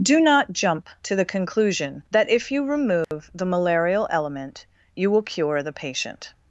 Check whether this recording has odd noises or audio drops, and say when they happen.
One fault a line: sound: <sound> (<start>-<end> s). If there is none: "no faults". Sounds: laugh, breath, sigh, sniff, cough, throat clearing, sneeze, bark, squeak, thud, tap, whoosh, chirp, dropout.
sound: dropout (3.0-3.1 s)